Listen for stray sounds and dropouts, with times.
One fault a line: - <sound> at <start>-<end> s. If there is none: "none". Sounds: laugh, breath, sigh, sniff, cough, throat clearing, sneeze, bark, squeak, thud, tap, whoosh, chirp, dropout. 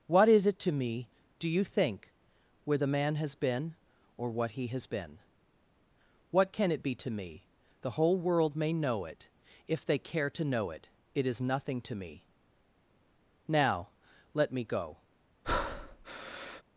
- breath at 15.4-16.6 s